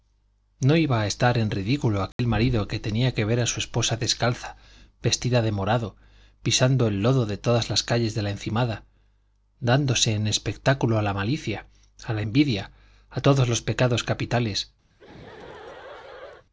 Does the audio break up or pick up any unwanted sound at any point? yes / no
yes